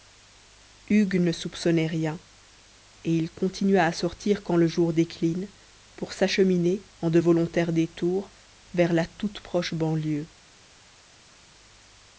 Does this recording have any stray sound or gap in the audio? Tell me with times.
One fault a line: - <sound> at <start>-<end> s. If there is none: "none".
none